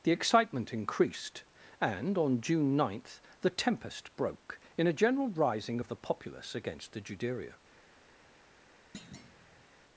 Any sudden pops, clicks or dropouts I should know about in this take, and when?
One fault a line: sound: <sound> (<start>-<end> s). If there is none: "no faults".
sound: thud (8.9-9.6 s)